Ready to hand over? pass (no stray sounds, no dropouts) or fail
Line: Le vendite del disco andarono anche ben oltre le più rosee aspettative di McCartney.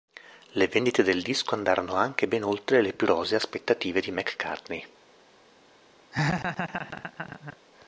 fail